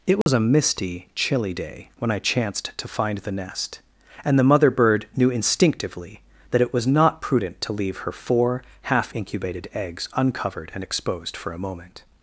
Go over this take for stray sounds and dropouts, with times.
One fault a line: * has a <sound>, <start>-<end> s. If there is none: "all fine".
* has a dropout, 0.2-0.3 s